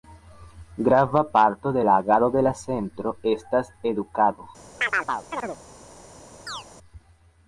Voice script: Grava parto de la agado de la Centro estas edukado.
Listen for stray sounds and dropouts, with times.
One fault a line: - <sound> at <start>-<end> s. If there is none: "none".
- chirp at 4.8-5.6 s
- chirp at 6.5-6.6 s